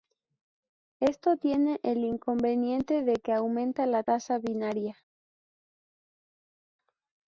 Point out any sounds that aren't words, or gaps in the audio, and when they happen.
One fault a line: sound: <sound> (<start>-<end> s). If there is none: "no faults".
no faults